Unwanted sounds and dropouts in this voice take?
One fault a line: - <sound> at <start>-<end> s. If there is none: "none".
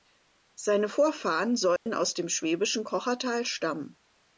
- dropout at 1.8-1.9 s